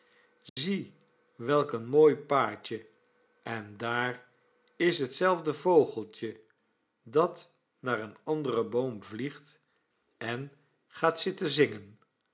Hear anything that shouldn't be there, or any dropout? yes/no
yes